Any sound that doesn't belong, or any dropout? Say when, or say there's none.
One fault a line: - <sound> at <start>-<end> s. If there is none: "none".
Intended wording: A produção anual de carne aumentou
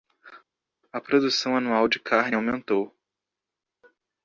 none